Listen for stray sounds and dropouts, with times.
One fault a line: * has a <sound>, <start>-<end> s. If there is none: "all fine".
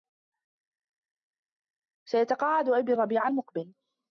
all fine